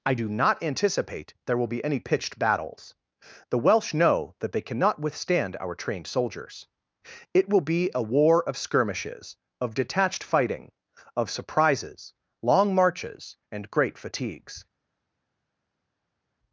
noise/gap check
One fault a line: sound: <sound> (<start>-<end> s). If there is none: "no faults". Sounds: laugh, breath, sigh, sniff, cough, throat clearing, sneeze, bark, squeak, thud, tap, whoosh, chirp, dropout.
no faults